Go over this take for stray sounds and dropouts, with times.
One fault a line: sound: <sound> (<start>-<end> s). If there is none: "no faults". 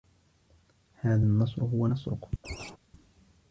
sound: laugh (2.4-2.8 s)